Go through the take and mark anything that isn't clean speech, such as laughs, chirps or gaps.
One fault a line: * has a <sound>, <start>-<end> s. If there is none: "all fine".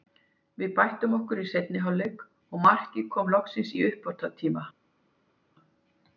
all fine